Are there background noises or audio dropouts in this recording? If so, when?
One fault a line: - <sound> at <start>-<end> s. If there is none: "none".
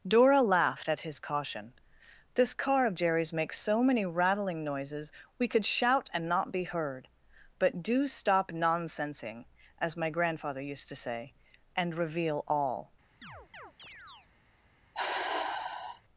- chirp at 13.2-14.3 s
- sigh at 14.9-16.0 s